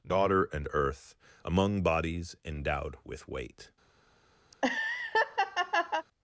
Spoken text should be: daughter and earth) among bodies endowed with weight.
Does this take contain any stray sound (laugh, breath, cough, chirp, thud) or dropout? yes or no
yes